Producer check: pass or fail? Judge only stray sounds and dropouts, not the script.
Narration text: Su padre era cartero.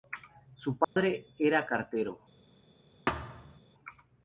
fail